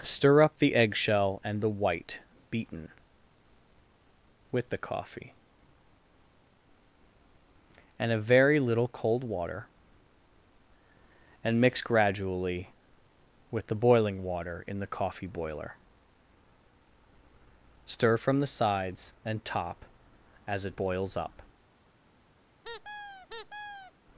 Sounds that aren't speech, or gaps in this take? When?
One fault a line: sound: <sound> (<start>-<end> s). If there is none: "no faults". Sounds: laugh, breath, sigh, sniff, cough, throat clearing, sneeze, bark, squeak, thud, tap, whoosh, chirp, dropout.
sound: squeak (22.6-23.9 s)